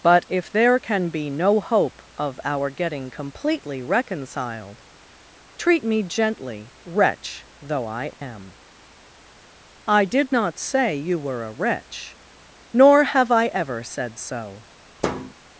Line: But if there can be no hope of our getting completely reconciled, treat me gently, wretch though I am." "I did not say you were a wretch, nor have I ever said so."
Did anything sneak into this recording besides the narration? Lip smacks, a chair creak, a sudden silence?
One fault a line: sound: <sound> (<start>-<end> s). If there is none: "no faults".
sound: dropout (8.1-8.2 s)
sound: thud (15.0-15.3 s)